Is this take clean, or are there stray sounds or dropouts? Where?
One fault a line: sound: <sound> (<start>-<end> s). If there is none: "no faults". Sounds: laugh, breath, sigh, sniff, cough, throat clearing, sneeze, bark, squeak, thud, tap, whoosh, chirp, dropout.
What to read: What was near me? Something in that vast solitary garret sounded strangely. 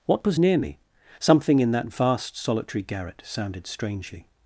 no faults